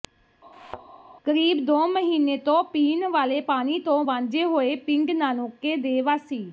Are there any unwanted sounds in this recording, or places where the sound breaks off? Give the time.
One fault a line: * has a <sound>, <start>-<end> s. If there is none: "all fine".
* has a thud, 0.5-0.9 s